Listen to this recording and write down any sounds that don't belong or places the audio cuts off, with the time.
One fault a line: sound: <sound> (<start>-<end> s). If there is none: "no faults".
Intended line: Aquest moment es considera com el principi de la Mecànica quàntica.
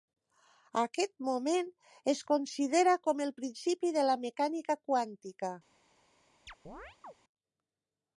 sound: chirp (6.5-7.1 s)